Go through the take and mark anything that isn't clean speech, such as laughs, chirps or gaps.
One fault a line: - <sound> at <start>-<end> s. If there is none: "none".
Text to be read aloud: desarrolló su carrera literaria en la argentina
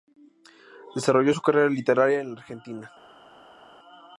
none